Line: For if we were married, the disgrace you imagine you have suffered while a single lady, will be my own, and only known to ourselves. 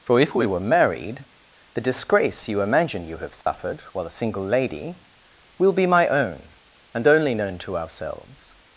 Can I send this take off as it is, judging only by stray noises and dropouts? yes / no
no